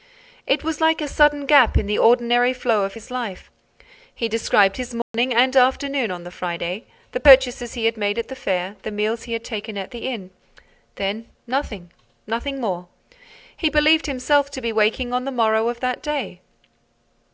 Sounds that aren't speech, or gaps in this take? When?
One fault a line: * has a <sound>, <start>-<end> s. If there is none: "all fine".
* has a dropout, 5.0-5.1 s